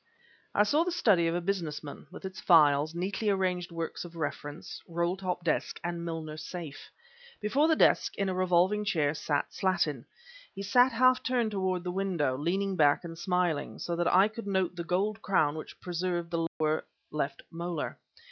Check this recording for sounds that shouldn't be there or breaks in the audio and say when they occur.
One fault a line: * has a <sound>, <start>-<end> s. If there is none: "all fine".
* has a dropout, 16.5-16.6 s